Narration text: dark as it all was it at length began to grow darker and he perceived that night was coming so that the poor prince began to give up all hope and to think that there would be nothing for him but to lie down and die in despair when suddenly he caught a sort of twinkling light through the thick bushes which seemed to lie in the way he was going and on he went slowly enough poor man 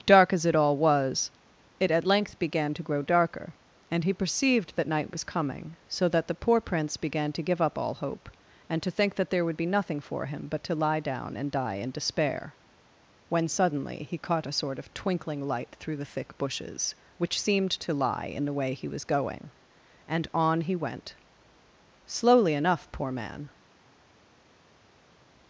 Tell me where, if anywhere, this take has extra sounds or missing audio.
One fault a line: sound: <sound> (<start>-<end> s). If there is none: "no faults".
no faults